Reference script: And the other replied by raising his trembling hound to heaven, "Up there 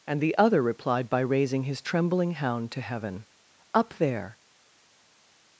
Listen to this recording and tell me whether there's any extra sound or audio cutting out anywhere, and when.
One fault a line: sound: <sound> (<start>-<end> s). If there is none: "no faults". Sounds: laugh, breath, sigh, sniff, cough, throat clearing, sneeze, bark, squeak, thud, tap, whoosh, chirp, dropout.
no faults